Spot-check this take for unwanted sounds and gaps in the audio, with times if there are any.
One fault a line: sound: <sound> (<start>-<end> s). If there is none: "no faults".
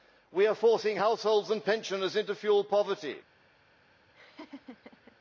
sound: laugh (4.1-5.2 s)